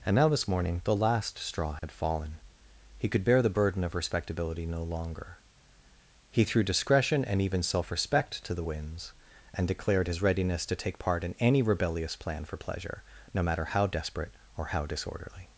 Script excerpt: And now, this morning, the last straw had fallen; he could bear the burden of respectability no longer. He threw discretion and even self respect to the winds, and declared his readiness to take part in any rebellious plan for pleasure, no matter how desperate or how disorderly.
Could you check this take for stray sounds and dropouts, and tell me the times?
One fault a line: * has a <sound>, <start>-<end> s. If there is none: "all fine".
* has a dropout, 1.8-1.8 s